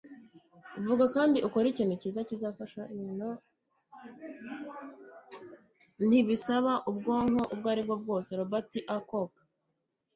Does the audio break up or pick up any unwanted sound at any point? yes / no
no